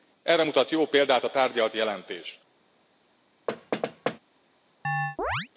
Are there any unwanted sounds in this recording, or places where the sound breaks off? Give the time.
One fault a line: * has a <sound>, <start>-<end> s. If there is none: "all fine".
* has a thud, 3.5-4.2 s
* has a chirp, 4.8-5.5 s